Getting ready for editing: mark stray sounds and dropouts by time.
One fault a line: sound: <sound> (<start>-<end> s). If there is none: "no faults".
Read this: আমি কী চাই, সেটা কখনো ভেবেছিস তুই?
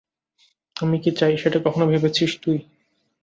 no faults